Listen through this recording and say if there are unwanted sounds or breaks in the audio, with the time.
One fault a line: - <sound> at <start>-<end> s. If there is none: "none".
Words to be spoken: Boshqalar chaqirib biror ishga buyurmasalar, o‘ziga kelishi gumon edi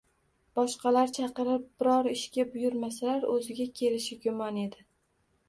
none